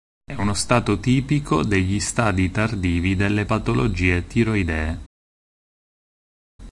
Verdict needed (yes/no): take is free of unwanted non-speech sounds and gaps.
yes